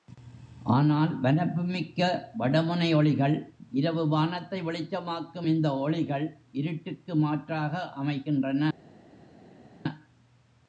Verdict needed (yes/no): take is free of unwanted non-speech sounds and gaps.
yes